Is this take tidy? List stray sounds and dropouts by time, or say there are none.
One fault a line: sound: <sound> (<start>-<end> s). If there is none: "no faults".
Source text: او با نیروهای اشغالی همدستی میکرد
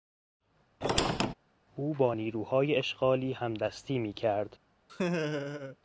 sound: squeak (0.8-1.3 s)
sound: laugh (4.9-5.8 s)